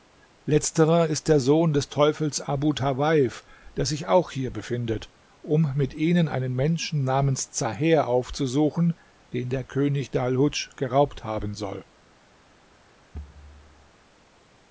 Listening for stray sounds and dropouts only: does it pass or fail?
fail